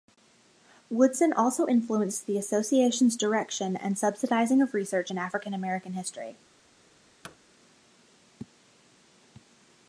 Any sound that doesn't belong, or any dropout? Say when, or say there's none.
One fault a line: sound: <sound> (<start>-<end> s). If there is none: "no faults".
sound: thud (7.2-7.4 s)